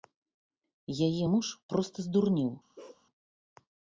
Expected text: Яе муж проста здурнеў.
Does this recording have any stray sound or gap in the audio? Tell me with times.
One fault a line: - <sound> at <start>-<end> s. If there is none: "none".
- bark at 2.8-3.1 s